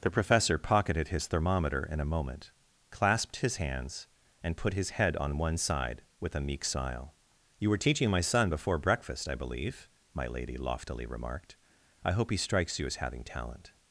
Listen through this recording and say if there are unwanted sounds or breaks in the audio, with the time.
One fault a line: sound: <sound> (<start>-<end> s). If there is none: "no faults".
no faults